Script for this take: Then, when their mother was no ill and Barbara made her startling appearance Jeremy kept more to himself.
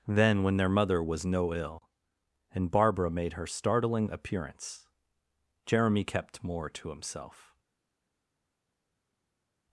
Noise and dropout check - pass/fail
pass